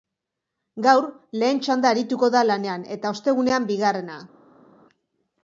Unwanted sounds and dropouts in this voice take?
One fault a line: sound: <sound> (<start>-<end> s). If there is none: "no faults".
no faults